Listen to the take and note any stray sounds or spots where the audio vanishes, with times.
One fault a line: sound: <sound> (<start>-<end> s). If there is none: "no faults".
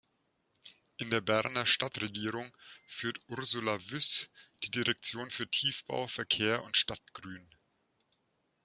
no faults